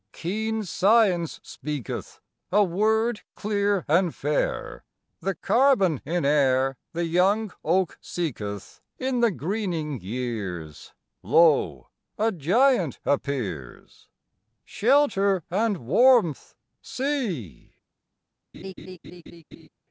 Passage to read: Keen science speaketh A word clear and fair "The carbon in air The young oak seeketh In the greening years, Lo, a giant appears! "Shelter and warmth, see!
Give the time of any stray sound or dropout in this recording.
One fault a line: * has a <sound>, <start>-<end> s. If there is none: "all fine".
* has a laugh, 18.5-19.7 s